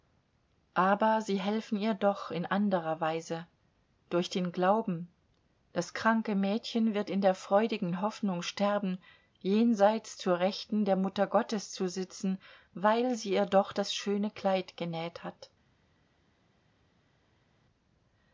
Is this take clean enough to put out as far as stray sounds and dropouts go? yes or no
yes